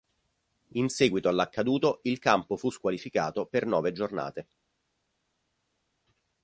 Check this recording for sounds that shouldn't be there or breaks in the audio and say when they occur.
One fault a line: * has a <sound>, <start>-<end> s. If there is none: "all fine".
all fine